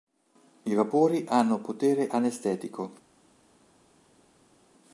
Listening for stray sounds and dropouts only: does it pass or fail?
pass